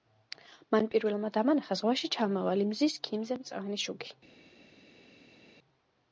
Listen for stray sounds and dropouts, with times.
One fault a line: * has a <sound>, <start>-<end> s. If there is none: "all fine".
all fine